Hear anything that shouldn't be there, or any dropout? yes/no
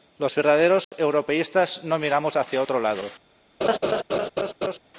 yes